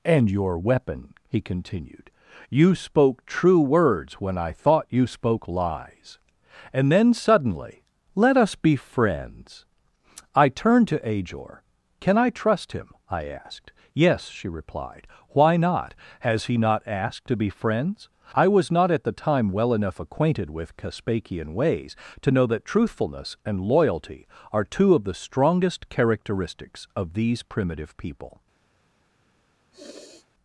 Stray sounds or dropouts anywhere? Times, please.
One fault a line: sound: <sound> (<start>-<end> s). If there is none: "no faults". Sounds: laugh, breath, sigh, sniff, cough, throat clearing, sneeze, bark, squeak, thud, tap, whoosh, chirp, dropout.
sound: sniff (29.7-30.3 s)